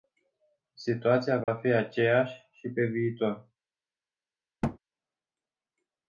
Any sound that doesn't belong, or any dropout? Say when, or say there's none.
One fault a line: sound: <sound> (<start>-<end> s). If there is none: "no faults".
sound: dropout (1.4-1.5 s)
sound: thud (4.6-4.8 s)